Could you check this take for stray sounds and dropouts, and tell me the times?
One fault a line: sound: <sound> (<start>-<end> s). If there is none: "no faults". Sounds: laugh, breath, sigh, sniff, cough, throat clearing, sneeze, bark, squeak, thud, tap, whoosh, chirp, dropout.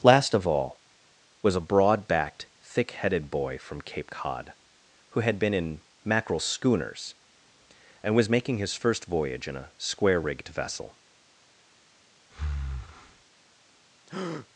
sound: breath (12.3-13.2 s)
sound: breath (14.1-14.5 s)